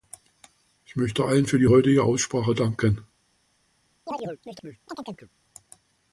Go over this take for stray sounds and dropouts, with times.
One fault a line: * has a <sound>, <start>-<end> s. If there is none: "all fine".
* has a chirp, 4.1-5.3 s